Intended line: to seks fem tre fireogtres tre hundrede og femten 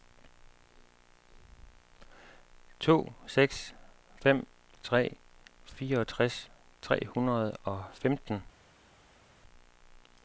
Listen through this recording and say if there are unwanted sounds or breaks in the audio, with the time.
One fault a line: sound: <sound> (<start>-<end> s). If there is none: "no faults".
no faults